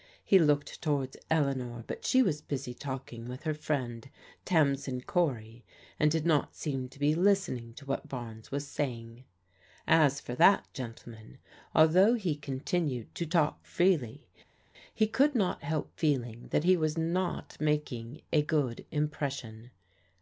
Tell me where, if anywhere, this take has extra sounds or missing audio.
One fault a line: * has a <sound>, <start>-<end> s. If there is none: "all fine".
all fine